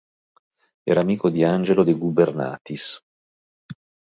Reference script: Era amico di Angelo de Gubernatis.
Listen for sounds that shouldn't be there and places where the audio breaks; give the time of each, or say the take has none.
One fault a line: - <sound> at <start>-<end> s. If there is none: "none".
none